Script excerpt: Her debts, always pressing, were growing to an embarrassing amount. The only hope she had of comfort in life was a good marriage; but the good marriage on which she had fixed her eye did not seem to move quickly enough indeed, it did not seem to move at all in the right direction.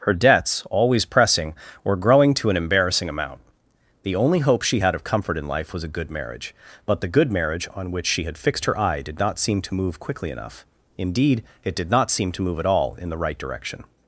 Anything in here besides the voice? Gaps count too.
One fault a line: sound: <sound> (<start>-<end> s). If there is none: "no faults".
no faults